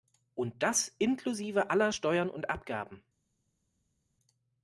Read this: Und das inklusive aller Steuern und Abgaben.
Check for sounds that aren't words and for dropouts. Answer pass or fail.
pass